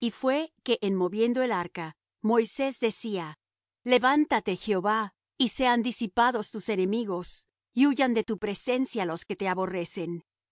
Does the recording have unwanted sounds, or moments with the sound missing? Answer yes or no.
no